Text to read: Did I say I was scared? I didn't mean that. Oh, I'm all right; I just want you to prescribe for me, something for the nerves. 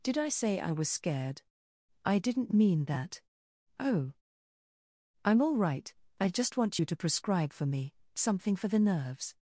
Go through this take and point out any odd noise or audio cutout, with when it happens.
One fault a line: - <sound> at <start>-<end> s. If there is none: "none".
none